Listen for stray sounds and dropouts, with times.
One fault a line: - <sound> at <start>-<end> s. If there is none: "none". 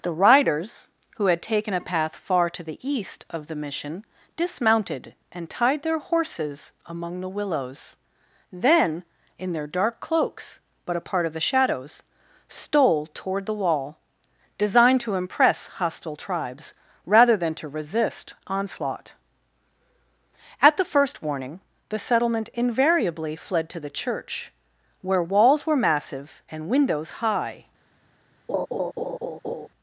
- laugh at 28.5-29.7 s